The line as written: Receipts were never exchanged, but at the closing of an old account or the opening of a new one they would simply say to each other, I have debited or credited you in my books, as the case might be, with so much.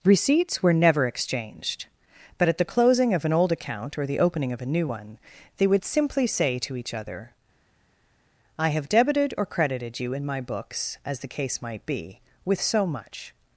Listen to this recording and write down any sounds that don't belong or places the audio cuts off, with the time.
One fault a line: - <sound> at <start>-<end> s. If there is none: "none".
none